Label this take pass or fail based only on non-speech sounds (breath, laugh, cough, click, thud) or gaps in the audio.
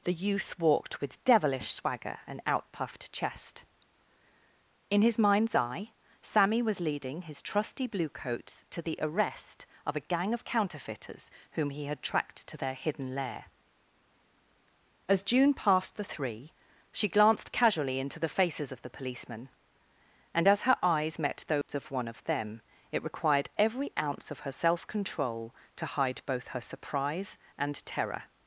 fail